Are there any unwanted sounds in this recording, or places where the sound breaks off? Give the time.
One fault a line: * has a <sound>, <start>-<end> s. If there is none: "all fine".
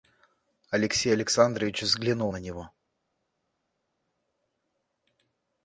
all fine